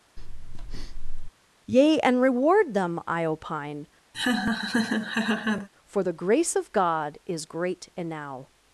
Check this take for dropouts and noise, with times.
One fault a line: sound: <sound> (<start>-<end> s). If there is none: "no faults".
sound: breath (0.2-1.3 s)
sound: laugh (4.1-5.7 s)